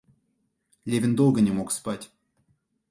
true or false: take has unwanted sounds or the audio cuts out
false